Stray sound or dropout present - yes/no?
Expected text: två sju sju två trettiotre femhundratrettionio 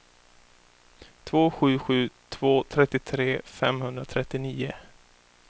no